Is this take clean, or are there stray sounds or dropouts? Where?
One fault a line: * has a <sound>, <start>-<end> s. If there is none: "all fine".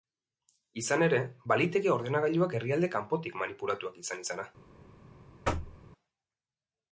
* has a thud, 5.4-5.8 s